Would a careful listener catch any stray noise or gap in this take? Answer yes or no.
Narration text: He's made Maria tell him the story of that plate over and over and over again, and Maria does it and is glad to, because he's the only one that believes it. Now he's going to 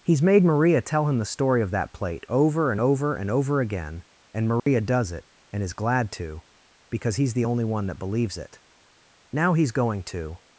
yes